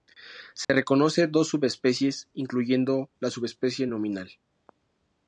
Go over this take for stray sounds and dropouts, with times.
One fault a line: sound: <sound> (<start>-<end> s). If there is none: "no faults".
sound: dropout (0.6-0.7 s)